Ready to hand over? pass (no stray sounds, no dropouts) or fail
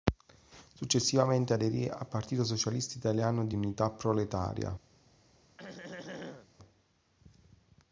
fail